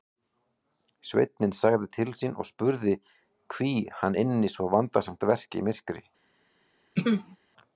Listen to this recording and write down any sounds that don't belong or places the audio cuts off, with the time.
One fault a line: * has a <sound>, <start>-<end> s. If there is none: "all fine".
* has a throat clearing, 7.0-7.4 s